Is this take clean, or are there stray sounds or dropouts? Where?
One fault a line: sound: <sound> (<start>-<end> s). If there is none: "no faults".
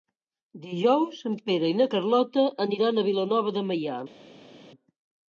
no faults